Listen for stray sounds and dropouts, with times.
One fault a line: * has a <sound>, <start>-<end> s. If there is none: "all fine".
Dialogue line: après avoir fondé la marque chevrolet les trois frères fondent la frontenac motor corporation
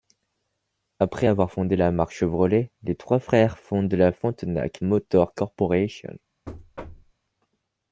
* has a thud, 6.5-7.1 s